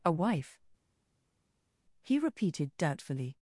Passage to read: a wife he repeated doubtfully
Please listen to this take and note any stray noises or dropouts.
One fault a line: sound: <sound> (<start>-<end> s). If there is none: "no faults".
no faults